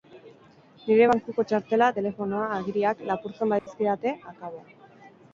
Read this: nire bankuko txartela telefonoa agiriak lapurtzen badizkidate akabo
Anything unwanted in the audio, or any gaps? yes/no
yes